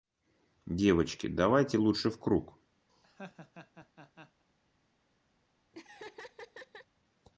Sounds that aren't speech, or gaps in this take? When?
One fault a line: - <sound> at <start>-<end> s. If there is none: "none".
- laugh at 2.9-4.4 s
- laugh at 5.7-6.9 s